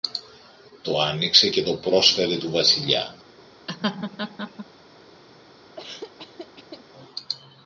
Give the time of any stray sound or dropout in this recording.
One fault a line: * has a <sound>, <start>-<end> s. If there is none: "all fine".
* has a laugh, 3.7-4.7 s
* has a laugh, 5.8-6.9 s